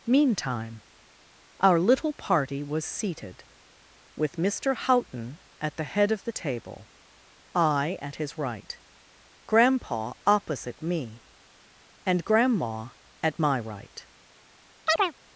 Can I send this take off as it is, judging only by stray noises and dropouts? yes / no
no